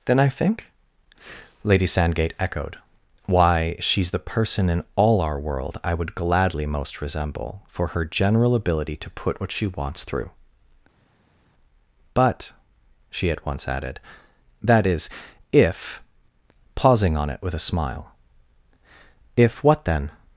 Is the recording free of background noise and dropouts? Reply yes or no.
yes